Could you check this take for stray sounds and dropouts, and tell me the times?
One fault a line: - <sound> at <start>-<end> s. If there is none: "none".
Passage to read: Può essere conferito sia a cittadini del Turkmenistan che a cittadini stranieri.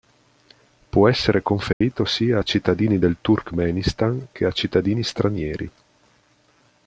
- dropout at 1.7-1.8 s